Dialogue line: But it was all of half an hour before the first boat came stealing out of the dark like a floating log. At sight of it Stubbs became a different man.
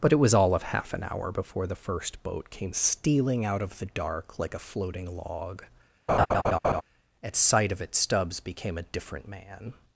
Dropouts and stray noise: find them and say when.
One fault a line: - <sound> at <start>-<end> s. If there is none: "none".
- laugh at 6.1-6.8 s